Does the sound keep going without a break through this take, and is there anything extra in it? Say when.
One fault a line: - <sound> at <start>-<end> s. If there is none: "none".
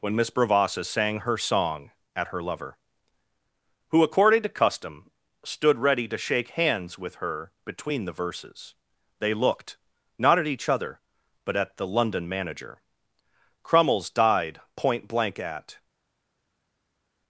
none